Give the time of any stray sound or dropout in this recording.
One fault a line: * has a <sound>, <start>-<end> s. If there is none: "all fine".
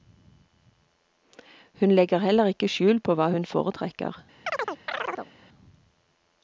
* has a chirp, 4.5-5.3 s